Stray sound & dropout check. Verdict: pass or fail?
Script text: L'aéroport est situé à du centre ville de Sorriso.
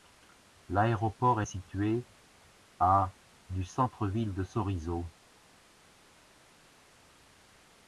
pass